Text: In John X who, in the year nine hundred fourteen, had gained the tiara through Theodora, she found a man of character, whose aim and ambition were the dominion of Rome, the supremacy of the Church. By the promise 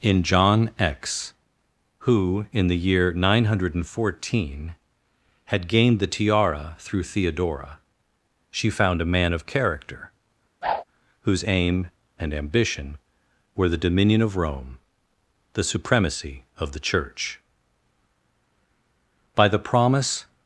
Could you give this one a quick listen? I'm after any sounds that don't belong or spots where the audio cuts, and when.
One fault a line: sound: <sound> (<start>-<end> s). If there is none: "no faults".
sound: whoosh (10.6-10.8 s)